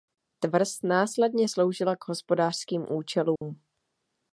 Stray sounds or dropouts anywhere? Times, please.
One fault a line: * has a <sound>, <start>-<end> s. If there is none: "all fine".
* has a dropout, 3.4-3.4 s